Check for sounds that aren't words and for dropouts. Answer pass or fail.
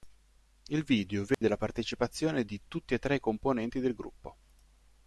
fail